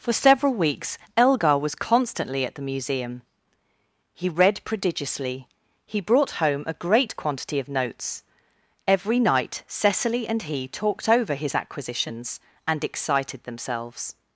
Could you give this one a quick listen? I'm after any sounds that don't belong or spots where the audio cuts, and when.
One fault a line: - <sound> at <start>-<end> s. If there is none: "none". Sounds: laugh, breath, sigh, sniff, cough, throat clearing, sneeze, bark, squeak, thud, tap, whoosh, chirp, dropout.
none